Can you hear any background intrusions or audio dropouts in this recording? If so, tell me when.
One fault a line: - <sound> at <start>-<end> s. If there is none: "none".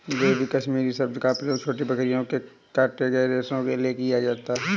none